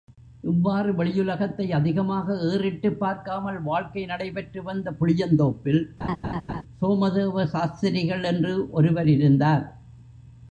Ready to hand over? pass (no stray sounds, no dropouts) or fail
fail